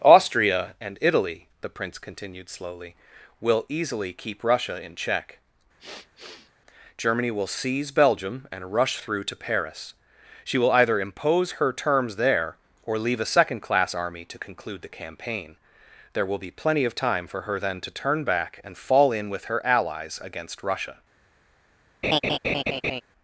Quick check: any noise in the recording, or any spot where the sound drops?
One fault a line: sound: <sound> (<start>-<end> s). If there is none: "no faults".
sound: sniff (5.8-6.5 s)
sound: laugh (22.0-23.0 s)